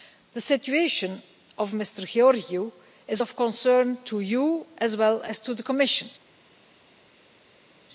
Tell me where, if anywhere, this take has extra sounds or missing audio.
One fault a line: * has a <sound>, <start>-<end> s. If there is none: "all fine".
all fine